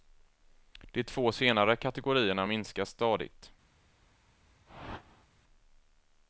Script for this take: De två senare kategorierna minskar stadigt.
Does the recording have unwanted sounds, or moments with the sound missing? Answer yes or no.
yes